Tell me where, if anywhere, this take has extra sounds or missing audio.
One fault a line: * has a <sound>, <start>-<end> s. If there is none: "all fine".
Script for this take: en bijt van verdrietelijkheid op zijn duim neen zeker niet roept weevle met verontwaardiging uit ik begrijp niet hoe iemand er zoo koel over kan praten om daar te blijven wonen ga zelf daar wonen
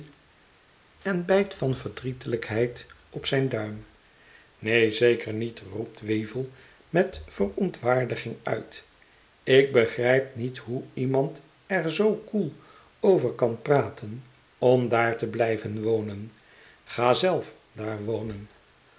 all fine